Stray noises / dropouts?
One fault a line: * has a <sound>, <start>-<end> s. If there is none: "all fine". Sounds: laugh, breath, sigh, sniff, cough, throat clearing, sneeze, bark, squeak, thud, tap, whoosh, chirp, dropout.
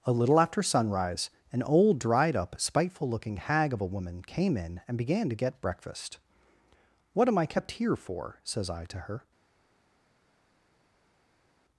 all fine